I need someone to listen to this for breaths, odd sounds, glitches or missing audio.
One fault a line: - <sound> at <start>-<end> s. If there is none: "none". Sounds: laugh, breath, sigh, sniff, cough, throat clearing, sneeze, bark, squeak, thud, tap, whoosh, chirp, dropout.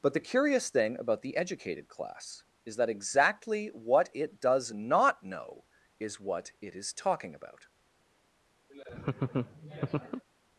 - laugh at 8.7-10.2 s